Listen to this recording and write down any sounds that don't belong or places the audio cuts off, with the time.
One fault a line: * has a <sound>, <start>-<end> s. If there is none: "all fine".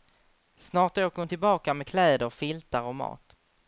all fine